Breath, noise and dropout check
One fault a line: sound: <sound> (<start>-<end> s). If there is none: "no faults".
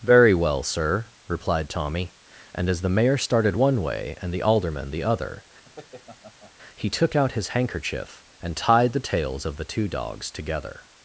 sound: laugh (5.6-6.5 s)